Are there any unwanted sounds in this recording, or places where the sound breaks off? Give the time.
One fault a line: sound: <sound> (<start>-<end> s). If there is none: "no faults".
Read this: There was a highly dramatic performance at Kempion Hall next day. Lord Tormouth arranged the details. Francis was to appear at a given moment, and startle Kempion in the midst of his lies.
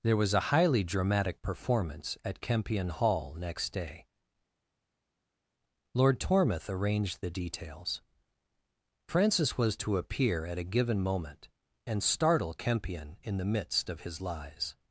no faults